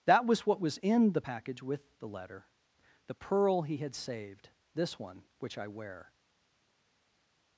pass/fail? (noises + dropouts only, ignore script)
pass